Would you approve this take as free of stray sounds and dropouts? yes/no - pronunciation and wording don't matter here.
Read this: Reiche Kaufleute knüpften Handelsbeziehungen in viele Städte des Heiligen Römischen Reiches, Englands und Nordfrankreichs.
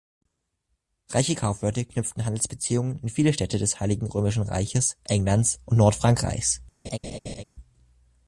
no